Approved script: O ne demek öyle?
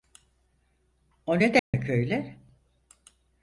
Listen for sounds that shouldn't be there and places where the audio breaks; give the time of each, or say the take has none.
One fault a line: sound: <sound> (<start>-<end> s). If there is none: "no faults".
sound: dropout (1.6-1.7 s)